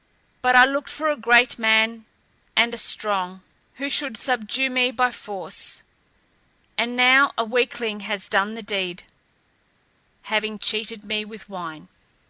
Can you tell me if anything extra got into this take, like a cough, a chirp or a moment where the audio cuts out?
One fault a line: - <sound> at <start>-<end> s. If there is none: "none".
none